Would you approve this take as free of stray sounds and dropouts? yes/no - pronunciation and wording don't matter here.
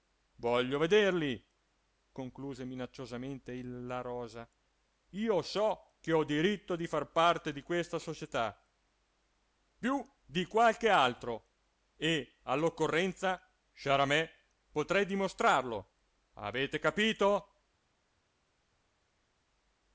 yes